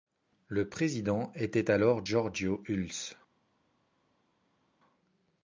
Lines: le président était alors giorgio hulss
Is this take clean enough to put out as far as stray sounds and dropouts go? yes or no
yes